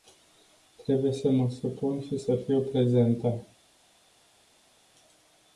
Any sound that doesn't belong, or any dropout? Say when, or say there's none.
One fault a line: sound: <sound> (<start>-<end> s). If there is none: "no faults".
no faults